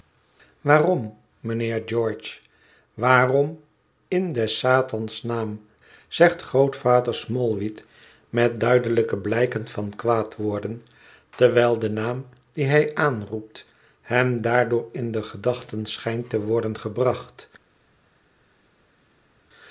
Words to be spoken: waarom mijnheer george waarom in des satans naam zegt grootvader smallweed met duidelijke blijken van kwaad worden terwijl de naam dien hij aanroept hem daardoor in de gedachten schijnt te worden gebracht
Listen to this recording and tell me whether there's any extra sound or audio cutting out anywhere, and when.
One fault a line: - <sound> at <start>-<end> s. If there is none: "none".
none